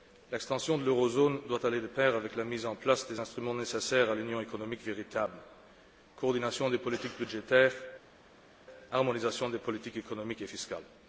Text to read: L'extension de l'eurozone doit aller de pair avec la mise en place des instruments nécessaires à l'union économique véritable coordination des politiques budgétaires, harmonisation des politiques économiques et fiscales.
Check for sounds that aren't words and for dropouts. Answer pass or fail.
pass